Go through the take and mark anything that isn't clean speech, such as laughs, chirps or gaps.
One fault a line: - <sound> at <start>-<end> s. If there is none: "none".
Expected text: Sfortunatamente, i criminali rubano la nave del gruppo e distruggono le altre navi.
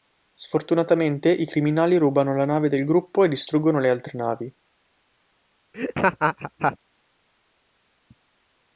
- laugh at 5.7-6.8 s